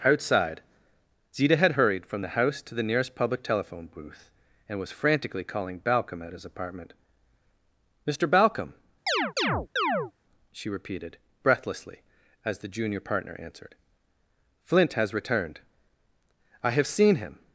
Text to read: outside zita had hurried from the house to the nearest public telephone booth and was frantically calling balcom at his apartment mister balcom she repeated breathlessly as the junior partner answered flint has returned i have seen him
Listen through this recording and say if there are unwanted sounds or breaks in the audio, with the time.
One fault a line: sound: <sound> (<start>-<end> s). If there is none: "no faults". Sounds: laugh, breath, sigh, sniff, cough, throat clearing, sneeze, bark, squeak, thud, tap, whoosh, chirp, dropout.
sound: chirp (9.1-10.1 s)